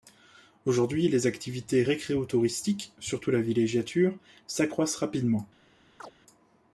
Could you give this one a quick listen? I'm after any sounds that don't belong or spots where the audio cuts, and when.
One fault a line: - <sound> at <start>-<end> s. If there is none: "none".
- chirp at 6.0-6.1 s